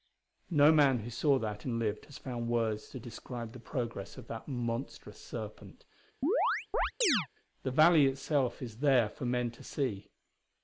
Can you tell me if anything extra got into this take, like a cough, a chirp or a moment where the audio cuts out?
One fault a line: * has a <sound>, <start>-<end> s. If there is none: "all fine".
* has a chirp, 6.2-7.3 s